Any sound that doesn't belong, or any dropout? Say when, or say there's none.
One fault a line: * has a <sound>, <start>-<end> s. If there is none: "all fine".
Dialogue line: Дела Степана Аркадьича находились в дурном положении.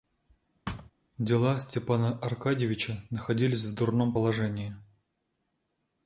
* has a thud, 0.7-0.9 s